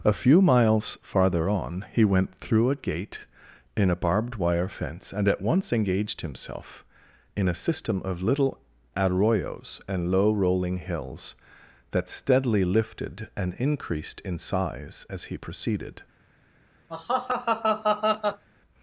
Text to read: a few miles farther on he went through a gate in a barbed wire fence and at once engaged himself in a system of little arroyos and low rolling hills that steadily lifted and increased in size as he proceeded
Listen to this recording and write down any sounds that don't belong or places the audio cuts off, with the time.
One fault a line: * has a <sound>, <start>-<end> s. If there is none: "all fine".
* has a laugh, 16.9-18.4 s